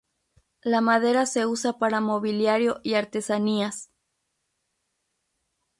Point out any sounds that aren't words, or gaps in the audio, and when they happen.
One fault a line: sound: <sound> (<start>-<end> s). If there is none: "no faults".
no faults